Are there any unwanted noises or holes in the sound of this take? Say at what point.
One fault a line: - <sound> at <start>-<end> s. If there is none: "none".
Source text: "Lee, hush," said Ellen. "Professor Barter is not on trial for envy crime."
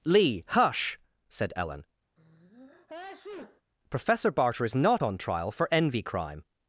- sneeze at 2.2-3.6 s